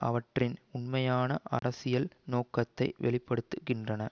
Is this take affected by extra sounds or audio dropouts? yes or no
yes